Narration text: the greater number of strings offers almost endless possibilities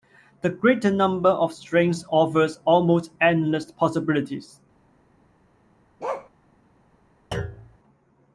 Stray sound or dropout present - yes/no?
yes